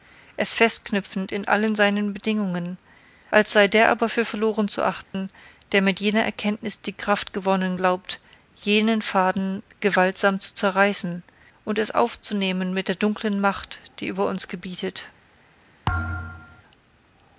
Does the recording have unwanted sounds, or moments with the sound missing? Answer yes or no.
yes